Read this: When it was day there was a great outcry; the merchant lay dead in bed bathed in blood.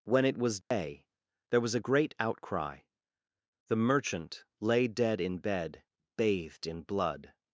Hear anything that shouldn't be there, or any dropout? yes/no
yes